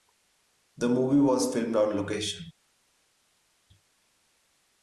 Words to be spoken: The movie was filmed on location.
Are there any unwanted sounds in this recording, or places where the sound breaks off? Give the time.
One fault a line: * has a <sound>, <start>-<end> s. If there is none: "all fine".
all fine